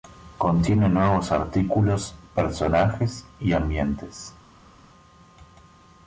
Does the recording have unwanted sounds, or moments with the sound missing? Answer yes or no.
no